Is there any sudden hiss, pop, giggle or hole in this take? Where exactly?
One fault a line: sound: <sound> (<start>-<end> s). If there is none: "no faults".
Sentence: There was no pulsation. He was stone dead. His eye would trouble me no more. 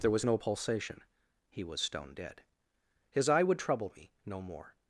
no faults